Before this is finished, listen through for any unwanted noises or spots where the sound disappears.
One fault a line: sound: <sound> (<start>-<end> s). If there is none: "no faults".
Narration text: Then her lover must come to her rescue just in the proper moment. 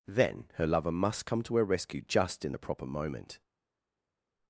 no faults